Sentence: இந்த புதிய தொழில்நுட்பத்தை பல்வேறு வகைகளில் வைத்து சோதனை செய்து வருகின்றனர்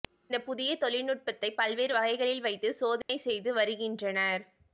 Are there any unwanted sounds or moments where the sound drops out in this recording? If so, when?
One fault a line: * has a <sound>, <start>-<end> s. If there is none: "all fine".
* has a dropout, 3.0-3.1 s